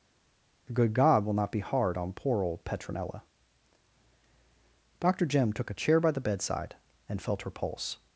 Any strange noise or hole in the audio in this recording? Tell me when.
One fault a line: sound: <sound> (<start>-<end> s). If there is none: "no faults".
no faults